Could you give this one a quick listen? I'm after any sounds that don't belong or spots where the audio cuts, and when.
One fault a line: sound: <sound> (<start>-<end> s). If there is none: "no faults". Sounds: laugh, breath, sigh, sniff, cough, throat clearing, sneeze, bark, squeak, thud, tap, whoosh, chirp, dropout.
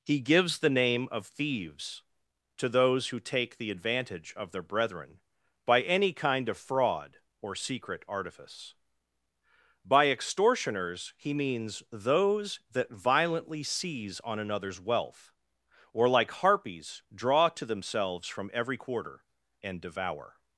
no faults